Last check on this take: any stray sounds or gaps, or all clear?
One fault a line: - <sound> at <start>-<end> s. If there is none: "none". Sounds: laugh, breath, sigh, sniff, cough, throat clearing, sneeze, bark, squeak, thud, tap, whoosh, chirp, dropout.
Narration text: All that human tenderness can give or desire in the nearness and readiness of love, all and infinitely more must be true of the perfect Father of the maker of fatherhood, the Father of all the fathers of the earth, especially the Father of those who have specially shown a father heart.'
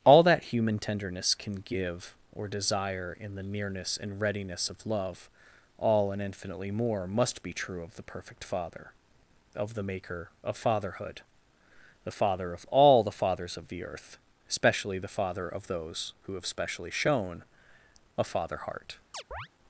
- chirp at 19.1-19.5 s